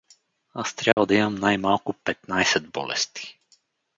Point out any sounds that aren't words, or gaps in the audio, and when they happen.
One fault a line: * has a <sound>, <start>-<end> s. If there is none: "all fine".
* has a dropout, 0.9-1.0 s